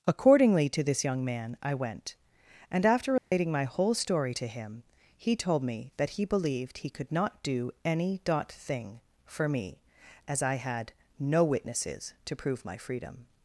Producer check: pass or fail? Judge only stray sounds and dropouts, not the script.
fail